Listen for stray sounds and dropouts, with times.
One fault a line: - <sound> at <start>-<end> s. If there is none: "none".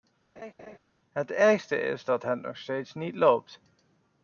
- laugh at 0.4-0.8 s